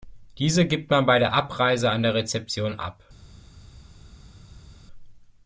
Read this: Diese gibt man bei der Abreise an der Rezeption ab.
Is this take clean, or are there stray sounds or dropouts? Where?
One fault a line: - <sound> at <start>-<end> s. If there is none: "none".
none